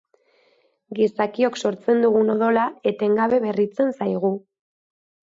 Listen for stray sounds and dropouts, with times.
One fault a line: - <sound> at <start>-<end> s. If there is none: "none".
none